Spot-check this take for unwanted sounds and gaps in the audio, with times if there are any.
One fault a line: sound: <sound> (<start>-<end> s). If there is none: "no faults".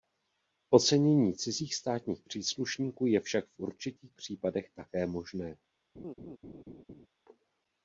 sound: laugh (6.0-7.1 s)